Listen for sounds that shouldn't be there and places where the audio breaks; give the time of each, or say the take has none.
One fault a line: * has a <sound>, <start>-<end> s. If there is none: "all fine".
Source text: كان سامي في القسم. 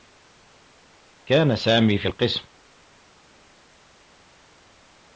all fine